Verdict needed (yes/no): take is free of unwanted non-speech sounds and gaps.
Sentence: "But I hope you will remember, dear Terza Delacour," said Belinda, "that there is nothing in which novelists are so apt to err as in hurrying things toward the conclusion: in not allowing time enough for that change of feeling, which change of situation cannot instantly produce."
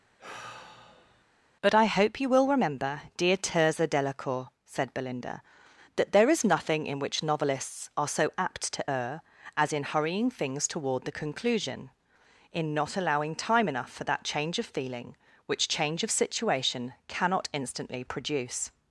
no